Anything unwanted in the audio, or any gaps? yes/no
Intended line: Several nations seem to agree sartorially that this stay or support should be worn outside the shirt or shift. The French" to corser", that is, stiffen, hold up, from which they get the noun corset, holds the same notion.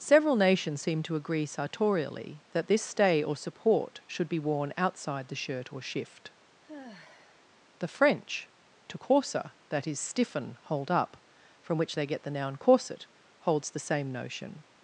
yes